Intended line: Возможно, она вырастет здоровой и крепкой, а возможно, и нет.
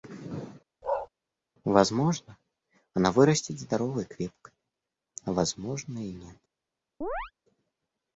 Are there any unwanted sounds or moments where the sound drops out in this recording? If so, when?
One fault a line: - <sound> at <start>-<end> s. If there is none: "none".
- bark at 0.8-1.1 s
- chirp at 7.0-7.3 s